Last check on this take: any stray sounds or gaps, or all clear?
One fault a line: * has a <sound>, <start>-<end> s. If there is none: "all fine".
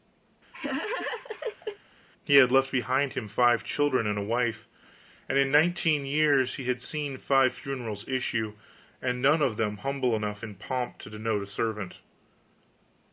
* has a laugh, 0.5-1.8 s